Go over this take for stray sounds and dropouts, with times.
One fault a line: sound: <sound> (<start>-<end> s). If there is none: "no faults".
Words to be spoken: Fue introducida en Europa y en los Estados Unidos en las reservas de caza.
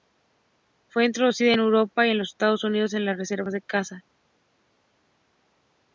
no faults